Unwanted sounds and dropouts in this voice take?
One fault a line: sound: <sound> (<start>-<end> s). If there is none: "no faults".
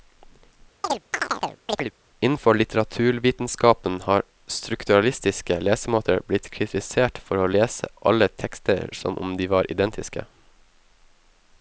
sound: chirp (0.8-1.9 s)